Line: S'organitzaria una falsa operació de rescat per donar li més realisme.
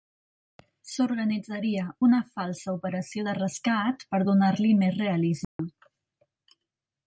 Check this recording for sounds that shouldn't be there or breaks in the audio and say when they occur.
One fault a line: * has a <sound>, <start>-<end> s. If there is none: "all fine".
* has a dropout, 5.4-5.6 s